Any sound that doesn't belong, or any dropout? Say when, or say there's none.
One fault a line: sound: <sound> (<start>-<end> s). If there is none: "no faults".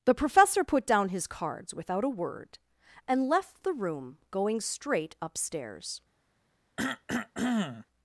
sound: cough (6.8-7.9 s)